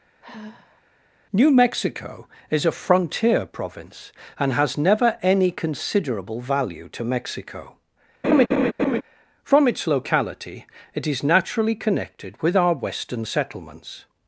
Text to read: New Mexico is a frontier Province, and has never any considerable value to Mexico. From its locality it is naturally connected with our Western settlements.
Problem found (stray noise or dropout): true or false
true